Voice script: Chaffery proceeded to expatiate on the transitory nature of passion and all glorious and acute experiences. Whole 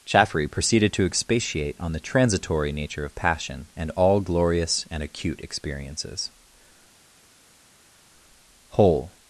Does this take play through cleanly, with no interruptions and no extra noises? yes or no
yes